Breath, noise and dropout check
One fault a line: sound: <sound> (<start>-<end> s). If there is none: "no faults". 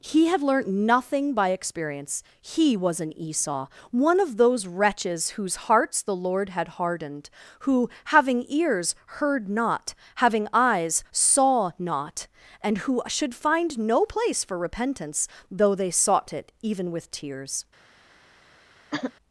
sound: throat clearing (18.9-19.1 s)